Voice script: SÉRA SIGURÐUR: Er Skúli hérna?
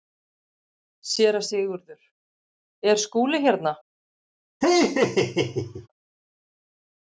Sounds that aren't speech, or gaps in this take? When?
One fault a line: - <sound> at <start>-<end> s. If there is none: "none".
- laugh at 4.6-5.9 s